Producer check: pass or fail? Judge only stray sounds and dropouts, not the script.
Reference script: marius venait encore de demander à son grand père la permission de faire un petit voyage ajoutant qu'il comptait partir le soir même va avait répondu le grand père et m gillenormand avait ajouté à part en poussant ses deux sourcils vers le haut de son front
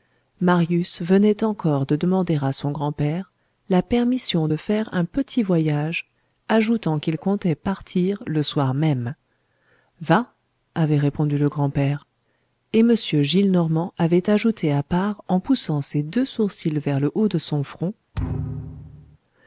fail